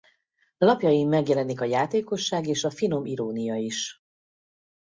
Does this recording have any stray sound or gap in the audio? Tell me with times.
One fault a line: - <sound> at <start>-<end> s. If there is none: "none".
none